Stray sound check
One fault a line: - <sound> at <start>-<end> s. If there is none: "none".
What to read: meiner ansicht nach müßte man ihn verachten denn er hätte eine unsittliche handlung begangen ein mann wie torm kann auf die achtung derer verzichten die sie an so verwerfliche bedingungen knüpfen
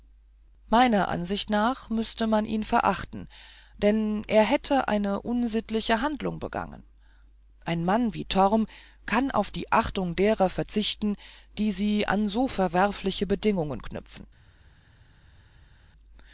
none